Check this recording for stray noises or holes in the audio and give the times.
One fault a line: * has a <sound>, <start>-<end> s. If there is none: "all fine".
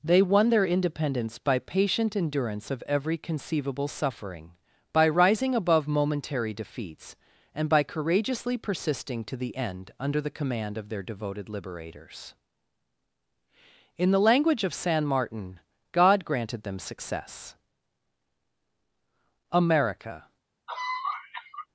* has a cough, 20.7-21.7 s